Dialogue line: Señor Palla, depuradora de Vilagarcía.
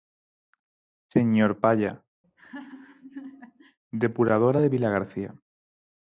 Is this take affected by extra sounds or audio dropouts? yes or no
yes